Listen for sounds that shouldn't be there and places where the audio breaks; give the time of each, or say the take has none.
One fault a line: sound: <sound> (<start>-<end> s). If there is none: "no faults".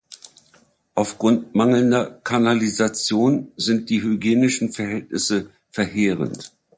no faults